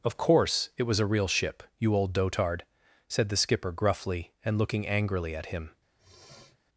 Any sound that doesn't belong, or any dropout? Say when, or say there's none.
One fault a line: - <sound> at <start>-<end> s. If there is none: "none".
- sniff at 6.0-6.6 s